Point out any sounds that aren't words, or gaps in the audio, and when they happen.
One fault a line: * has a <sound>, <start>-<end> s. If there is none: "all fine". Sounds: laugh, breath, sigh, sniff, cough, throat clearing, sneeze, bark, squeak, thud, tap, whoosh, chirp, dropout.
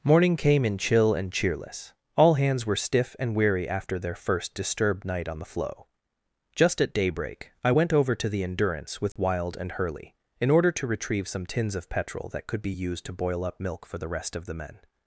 * has a dropout, 9.1-9.2 s